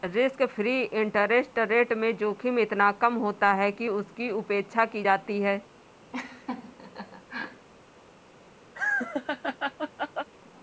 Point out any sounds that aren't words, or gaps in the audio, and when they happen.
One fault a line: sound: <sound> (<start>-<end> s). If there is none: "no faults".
sound: laugh (6.1-7.7 s)
sound: laugh (8.7-10.3 s)